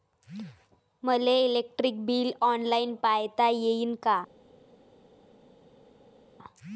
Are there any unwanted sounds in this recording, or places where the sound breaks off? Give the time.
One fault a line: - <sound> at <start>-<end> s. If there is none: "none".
none